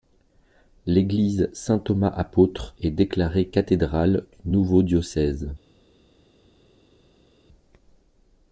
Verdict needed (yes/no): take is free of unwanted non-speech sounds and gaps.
yes